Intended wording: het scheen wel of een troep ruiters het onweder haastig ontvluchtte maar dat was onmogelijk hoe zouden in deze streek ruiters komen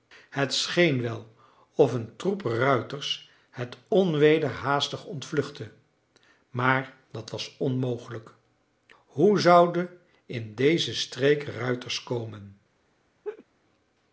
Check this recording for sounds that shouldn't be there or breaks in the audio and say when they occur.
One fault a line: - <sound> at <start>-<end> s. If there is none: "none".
- laugh at 13.2-13.4 s